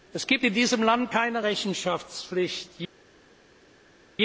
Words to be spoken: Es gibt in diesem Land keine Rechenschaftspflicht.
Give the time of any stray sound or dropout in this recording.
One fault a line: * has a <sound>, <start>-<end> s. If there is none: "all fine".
all fine